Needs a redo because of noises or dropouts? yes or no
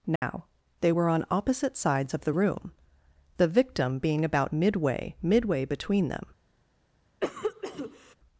yes